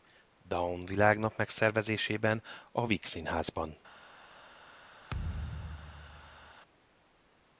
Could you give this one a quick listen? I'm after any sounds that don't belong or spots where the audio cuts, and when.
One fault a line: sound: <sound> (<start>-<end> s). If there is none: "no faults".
sound: thud (5.1-6.5 s)